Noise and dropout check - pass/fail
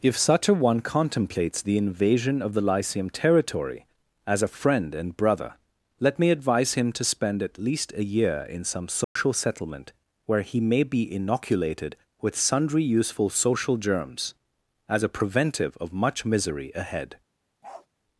fail